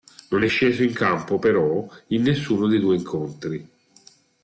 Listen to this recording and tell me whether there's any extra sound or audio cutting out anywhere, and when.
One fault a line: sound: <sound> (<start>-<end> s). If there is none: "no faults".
no faults